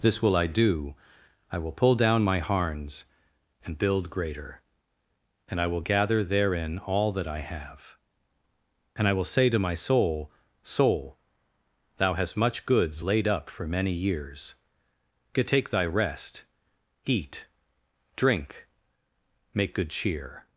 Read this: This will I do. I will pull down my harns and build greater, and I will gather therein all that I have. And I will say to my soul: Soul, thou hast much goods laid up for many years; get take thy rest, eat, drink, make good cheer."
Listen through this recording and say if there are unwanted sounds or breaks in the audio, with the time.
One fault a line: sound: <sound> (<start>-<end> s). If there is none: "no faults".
no faults